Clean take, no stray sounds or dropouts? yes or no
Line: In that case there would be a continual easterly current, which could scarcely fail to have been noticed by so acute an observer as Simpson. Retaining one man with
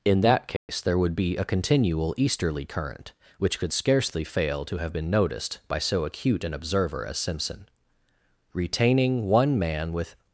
no